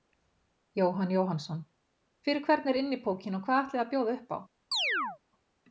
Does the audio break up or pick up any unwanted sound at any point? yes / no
yes